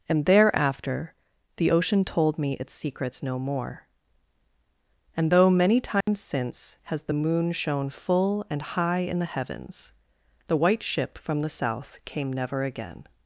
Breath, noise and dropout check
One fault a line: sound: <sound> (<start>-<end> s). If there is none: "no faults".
sound: dropout (6.0-6.1 s)